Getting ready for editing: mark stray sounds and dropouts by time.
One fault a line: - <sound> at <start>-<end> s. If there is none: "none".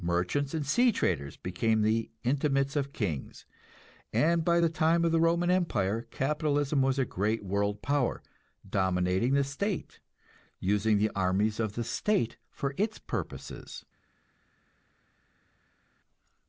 none